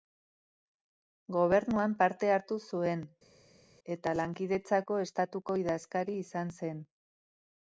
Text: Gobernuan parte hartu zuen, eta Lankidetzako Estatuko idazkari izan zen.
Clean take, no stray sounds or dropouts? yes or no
yes